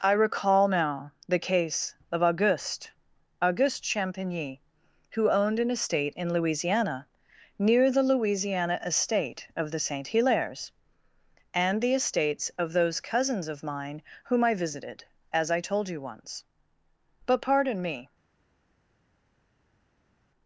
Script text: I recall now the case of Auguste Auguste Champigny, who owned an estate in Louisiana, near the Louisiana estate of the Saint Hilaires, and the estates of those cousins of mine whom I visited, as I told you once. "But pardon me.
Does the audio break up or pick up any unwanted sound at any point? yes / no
no